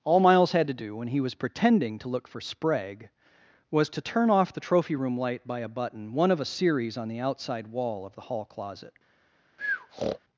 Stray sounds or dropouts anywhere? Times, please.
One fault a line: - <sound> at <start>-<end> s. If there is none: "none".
- breath at 9.6-10.2 s